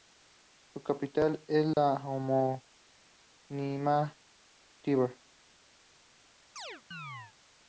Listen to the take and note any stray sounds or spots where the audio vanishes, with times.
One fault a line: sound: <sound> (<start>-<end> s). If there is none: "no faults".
sound: dropout (1.7-1.8 s)
sound: chirp (6.6-7.3 s)